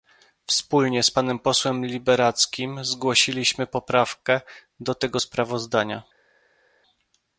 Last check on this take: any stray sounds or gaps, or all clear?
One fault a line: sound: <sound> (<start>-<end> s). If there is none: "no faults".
no faults